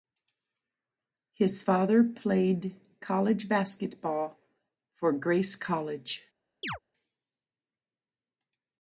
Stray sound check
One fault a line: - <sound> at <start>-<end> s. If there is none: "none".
- chirp at 6.6-6.8 s